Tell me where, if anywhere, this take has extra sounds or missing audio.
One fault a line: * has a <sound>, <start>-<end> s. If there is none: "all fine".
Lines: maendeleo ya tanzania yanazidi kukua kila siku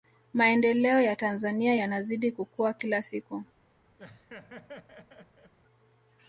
* has a laugh, 4.0-5.5 s